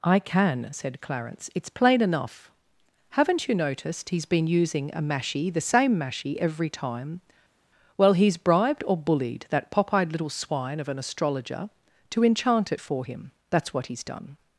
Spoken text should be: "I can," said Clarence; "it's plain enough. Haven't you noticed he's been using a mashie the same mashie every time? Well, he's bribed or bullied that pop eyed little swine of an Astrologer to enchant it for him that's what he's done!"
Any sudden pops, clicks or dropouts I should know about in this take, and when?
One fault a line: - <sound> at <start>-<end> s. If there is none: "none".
none